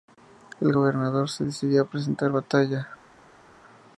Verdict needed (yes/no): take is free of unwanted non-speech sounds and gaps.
yes